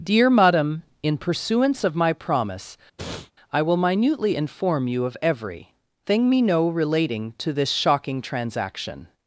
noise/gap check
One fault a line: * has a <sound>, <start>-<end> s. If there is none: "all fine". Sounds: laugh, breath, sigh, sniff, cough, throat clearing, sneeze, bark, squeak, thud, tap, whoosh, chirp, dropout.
* has a sniff, 3.0-3.3 s